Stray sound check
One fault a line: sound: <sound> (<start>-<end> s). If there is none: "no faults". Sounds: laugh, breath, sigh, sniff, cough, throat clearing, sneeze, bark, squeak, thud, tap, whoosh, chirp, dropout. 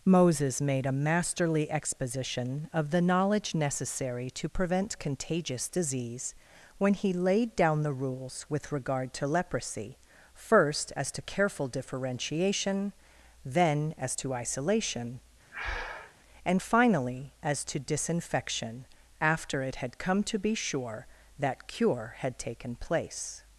sound: breath (15.5-16.1 s)